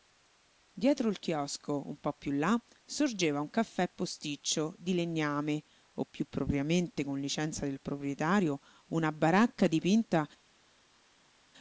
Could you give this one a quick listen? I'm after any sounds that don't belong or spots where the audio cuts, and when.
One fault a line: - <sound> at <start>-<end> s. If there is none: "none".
none